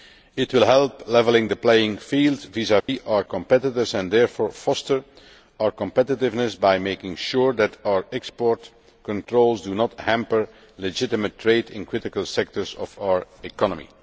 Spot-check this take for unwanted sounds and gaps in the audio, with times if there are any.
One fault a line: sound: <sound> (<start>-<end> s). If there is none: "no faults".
sound: dropout (2.8-2.9 s)